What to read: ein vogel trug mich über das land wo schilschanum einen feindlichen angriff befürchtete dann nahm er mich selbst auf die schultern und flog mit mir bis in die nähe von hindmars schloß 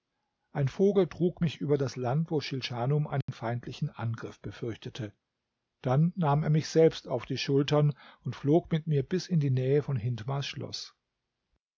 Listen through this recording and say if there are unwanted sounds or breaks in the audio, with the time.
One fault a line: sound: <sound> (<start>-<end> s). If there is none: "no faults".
sound: dropout (3.2-3.3 s)